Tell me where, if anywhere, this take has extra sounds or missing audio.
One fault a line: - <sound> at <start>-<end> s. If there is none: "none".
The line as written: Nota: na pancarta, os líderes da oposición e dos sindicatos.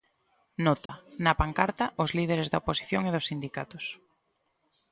- dropout at 0.9-0.9 s